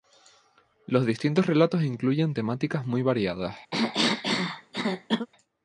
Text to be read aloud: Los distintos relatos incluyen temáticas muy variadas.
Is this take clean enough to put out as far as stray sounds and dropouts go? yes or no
no